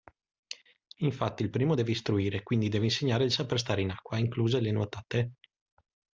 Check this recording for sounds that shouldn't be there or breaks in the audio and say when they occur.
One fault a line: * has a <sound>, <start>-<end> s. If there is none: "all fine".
all fine